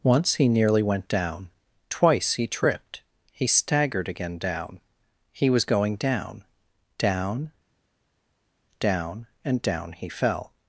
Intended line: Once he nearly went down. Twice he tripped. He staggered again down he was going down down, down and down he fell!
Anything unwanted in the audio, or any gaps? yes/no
no